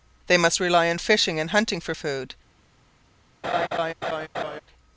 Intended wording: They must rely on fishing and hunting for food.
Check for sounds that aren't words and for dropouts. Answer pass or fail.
fail